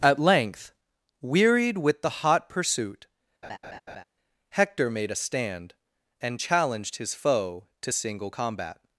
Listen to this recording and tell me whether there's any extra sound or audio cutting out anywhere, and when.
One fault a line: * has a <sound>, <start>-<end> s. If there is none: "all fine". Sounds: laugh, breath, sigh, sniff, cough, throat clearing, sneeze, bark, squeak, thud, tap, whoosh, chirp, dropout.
* has a laugh, 3.4-4.0 s